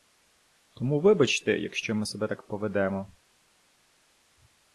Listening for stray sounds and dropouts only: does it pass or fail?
pass